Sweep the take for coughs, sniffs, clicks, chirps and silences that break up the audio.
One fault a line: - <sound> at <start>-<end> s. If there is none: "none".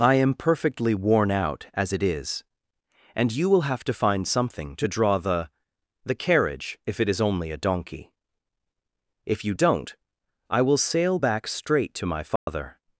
- dropout at 12.4-12.5 s